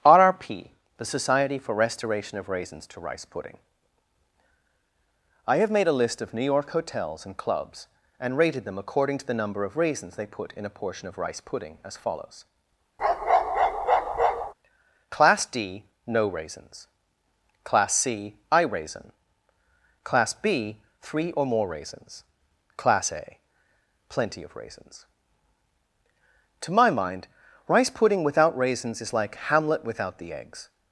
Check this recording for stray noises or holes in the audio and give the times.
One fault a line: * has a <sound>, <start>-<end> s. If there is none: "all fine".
* has a bark, 13.0-14.5 s